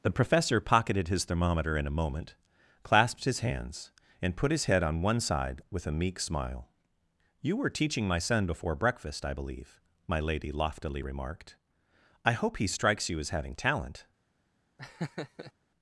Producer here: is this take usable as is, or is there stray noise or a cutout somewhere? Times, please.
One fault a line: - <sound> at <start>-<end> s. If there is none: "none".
- laugh at 14.8-15.5 s